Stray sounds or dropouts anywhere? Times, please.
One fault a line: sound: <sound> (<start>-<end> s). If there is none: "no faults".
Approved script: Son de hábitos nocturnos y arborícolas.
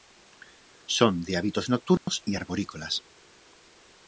sound: dropout (2.0-2.1 s)